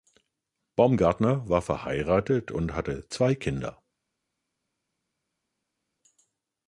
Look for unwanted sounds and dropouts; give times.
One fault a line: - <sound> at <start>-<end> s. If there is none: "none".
none